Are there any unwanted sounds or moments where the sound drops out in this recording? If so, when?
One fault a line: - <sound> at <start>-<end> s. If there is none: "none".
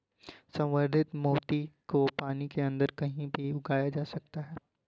none